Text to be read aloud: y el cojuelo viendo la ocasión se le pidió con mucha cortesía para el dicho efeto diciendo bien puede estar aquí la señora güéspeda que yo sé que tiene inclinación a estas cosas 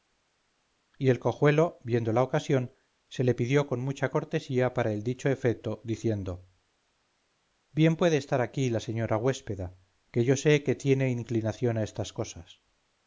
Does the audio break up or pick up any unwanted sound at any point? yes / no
no